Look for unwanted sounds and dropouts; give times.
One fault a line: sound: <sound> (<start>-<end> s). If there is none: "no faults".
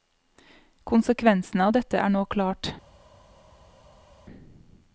no faults